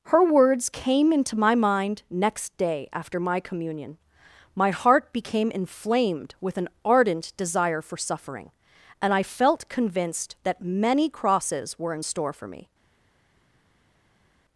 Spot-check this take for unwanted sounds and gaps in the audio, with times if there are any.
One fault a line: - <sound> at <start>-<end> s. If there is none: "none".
none